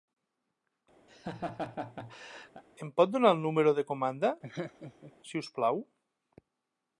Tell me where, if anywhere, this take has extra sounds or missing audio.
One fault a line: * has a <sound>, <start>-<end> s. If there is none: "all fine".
* has a laugh, 1.1-2.6 s
* has a laugh, 4.4-5.1 s